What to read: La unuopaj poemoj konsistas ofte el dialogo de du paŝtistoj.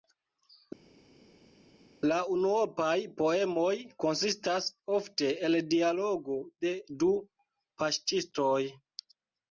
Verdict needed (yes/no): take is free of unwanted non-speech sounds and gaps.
yes